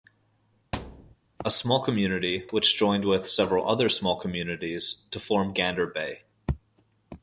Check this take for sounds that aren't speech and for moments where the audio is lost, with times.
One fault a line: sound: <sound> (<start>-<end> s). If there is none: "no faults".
sound: thud (0.7-1.2 s)